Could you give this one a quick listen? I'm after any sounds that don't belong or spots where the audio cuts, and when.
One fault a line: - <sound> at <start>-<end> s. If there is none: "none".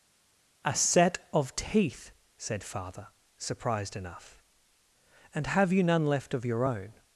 none